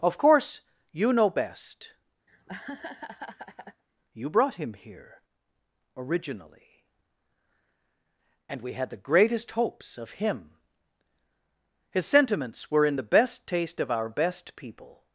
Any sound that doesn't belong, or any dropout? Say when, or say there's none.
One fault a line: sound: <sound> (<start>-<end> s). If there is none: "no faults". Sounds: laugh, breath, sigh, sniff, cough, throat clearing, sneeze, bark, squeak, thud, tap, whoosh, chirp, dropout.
sound: laugh (2.3-3.8 s)